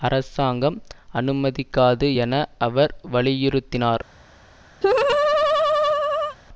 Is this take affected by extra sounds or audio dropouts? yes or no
yes